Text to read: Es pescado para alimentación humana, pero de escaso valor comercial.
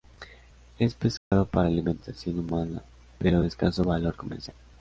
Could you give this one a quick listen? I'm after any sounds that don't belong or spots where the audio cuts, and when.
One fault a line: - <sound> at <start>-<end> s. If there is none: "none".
- dropout at 1.2-1.3 s